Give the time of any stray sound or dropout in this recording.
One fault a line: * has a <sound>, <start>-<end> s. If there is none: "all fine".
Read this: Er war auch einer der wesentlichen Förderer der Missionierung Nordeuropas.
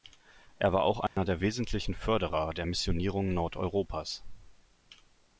* has a dropout, 1.1-1.2 s